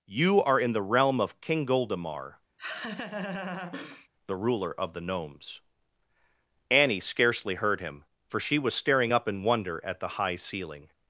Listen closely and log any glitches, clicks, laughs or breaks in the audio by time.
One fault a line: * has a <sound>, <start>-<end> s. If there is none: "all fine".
* has a laugh, 2.6-4.1 s